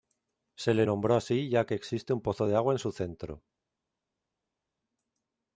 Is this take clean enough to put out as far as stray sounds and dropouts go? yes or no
yes